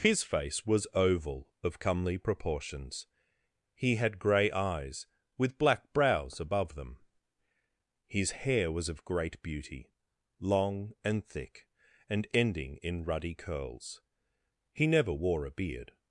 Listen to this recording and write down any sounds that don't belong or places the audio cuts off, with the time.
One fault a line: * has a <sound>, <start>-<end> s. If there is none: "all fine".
all fine